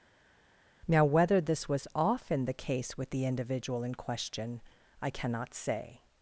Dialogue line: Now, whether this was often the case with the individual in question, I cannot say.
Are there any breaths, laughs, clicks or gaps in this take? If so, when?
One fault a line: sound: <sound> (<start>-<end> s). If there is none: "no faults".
no faults